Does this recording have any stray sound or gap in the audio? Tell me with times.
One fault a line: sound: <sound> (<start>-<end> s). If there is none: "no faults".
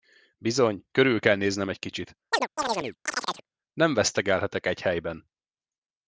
sound: chirp (2.3-3.5 s)